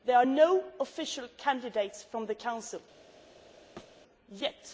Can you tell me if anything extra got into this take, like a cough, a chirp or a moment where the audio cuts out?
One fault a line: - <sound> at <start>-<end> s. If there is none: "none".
- thud at 3.8-4.0 s